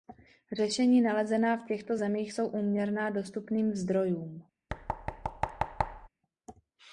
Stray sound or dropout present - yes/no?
yes